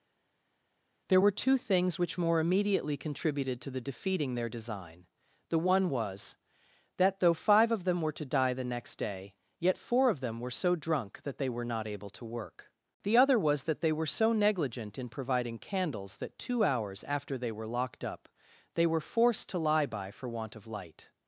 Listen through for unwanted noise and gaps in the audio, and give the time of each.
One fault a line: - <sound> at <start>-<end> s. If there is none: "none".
none